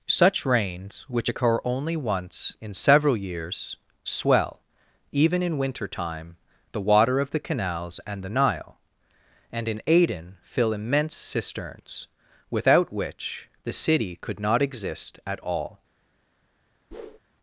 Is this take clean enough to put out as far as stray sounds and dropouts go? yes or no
no